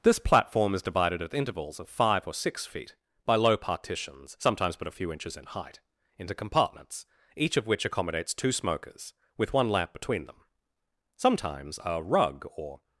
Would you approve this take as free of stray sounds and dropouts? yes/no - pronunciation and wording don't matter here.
yes